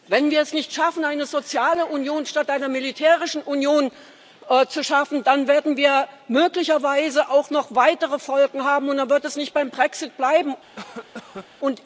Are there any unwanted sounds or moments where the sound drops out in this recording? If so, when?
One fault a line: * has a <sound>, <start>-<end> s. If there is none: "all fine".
* has a cough, 10.8-11.5 s